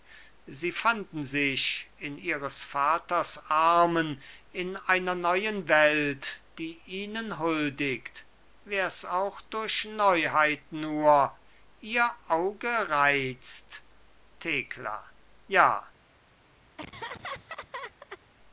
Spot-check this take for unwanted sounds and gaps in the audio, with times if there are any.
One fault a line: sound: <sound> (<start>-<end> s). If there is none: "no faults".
sound: laugh (16.8-18.2 s)